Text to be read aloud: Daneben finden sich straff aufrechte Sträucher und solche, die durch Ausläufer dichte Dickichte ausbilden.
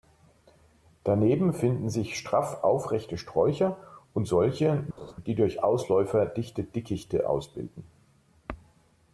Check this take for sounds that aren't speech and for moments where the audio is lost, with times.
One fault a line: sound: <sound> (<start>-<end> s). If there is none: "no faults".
sound: laugh (5.0-5.1 s)